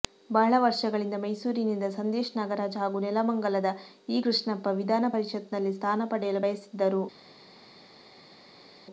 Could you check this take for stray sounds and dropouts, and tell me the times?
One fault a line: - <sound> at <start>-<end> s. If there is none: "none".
none